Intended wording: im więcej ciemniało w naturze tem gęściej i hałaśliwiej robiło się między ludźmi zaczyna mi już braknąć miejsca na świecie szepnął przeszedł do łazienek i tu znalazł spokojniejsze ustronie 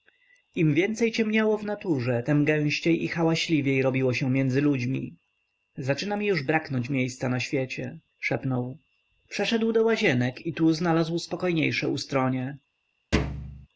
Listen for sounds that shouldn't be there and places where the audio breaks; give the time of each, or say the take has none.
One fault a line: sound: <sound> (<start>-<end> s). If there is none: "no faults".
sound: thud (13.1-13.7 s)